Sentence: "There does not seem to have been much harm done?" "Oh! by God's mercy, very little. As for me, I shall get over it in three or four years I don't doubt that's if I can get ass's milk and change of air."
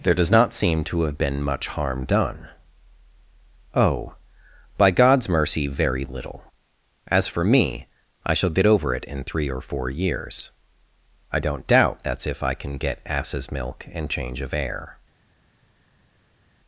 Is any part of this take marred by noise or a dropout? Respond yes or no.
no